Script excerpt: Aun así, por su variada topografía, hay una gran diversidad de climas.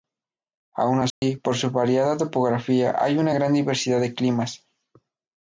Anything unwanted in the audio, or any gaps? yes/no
yes